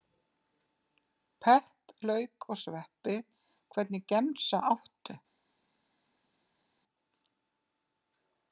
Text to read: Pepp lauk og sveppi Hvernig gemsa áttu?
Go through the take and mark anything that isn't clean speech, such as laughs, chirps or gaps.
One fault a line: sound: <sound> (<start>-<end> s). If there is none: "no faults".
no faults